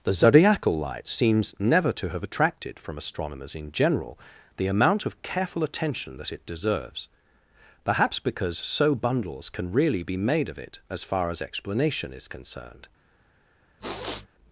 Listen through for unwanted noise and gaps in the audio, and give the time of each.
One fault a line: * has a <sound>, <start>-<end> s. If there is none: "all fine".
* has a sniff, 13.8-14.3 s